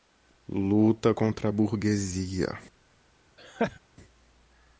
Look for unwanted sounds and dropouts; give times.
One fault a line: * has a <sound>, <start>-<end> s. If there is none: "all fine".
* has a laugh, 3.4-3.8 s